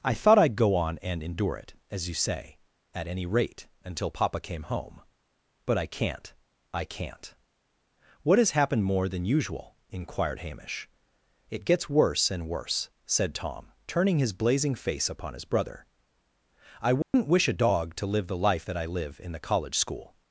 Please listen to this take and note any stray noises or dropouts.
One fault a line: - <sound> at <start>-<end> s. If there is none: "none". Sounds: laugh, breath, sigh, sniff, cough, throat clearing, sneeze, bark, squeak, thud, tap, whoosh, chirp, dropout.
- dropout at 17.0-17.1 s